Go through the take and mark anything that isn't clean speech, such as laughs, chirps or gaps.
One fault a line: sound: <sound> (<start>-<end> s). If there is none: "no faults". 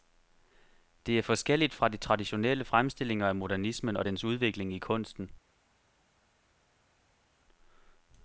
no faults